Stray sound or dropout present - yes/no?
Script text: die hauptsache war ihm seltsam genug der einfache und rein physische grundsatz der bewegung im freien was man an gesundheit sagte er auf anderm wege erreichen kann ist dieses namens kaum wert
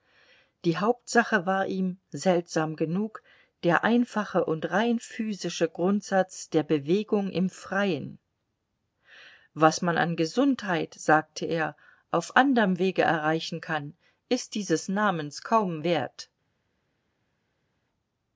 no